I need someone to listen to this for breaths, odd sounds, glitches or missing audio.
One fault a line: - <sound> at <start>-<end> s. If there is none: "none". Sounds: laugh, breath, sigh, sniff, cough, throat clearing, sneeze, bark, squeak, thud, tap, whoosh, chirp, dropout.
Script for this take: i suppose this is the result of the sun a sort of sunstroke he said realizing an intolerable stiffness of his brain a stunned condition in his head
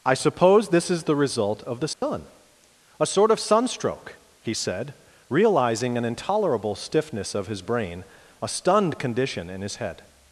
- dropout at 1.9-2.0 s